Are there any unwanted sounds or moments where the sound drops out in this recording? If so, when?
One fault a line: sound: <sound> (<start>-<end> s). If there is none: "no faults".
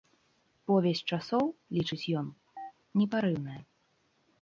sound: chirp (2.6-2.7 s)